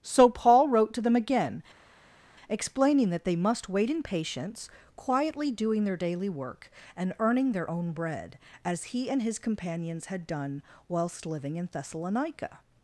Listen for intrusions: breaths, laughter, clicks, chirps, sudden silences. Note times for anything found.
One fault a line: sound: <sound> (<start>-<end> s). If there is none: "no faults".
no faults